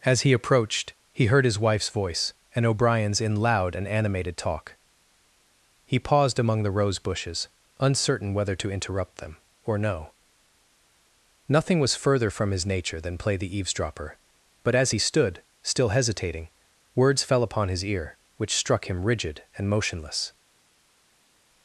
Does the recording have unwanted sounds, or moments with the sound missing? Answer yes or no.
no